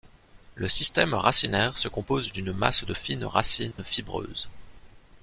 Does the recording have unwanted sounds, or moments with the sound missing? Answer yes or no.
yes